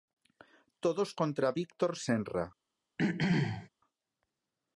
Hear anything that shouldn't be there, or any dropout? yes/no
yes